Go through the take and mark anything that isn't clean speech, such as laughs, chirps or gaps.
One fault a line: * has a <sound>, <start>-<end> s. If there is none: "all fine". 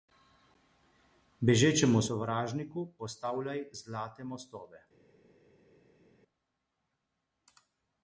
all fine